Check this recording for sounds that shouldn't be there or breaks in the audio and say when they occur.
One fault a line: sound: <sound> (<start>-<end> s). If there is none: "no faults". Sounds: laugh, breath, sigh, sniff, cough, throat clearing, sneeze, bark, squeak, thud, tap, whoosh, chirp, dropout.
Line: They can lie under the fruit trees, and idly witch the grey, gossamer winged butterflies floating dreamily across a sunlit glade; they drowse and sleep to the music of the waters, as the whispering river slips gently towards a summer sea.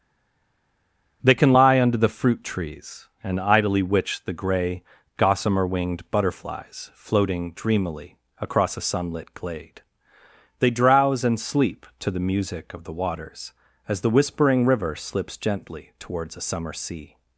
no faults